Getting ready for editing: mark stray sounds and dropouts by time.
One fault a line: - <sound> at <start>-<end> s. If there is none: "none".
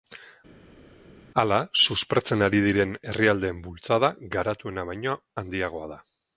none